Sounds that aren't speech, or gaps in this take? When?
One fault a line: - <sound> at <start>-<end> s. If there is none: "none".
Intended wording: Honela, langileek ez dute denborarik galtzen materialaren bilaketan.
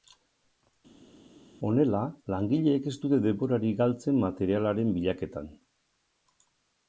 none